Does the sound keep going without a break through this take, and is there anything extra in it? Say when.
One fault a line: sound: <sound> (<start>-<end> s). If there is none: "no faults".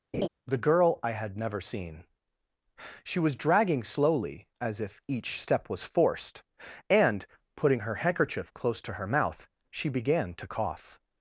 sound: laugh (0.1-0.3 s)